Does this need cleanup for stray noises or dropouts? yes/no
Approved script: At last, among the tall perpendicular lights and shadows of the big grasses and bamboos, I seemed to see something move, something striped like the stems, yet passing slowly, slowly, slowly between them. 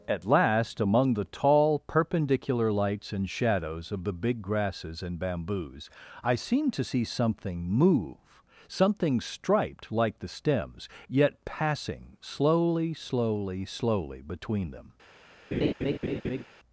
yes